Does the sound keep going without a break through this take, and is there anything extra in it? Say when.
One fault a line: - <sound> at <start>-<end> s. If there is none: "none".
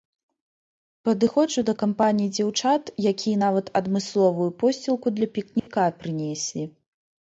- dropout at 5.6-5.7 s